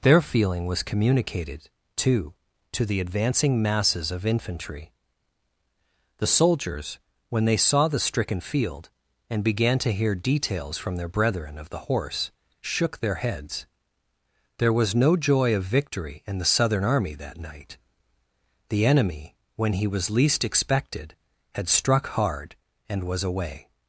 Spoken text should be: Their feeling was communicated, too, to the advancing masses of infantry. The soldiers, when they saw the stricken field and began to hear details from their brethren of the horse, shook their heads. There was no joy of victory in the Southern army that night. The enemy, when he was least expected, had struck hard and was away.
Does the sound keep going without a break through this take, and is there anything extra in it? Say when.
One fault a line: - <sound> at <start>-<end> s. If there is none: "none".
none